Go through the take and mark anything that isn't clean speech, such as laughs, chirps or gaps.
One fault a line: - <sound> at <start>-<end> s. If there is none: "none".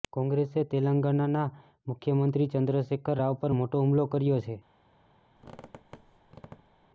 - squeak at 5.4-6.9 s